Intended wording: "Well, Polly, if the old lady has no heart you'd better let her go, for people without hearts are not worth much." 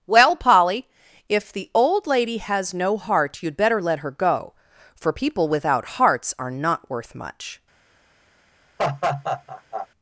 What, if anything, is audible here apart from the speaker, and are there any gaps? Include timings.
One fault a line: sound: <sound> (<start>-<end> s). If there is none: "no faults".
sound: laugh (8.8-9.9 s)